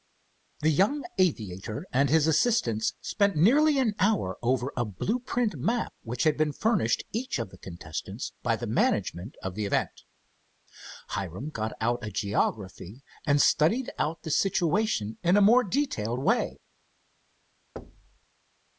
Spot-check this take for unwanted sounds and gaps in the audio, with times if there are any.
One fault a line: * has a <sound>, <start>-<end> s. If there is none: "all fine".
* has a thud, 17.8-18.2 s